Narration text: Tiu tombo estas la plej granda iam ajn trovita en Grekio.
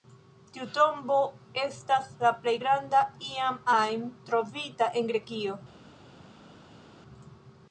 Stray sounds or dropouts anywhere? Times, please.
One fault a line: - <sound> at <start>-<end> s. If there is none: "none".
none